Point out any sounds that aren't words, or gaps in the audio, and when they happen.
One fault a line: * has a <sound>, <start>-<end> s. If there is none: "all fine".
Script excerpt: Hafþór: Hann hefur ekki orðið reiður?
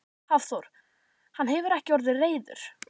all fine